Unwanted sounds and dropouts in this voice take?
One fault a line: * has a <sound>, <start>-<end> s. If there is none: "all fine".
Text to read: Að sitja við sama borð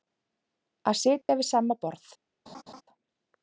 * has a dropout, 1.2-1.3 s
* has a laugh, 2.5-2.8 s